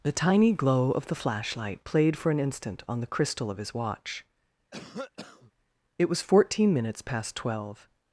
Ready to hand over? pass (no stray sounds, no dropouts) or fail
fail